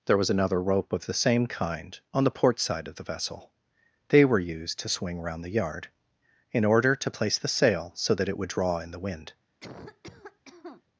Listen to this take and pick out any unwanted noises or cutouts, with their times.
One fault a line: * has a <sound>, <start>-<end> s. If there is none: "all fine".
* has a cough, 9.6-10.8 s